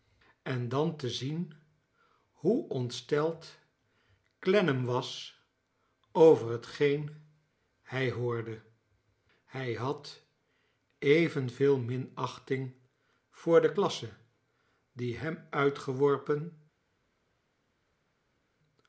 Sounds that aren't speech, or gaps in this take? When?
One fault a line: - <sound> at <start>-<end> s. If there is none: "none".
none